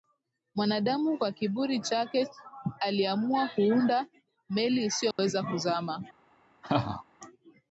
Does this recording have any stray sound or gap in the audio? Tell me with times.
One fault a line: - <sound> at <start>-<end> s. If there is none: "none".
- dropout at 5.1-5.2 s
- laugh at 6.6-7.0 s